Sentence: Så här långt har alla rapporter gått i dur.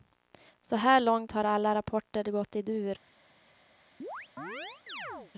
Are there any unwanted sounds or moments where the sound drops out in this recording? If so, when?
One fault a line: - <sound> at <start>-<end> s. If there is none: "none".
- chirp at 4.0-5.3 s